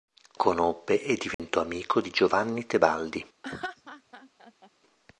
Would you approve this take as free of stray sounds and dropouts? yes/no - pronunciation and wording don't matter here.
no